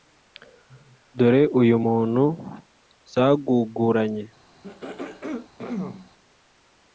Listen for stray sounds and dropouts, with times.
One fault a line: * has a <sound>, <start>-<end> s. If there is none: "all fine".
* has a throat clearing, 4.6-6.1 s